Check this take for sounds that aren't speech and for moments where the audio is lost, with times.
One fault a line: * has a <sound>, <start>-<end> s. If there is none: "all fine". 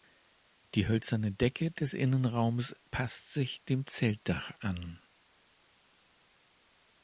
all fine